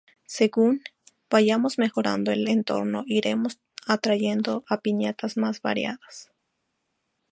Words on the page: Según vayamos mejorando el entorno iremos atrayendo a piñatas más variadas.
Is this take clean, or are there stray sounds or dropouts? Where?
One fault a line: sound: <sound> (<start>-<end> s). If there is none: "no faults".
no faults